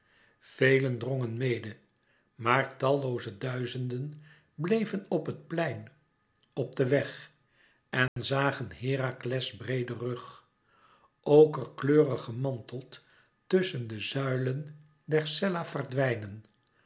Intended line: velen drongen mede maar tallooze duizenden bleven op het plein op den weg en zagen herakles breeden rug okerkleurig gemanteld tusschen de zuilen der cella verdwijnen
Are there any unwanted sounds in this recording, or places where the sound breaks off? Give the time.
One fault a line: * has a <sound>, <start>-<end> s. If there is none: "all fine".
* has a dropout, 8.1-8.2 s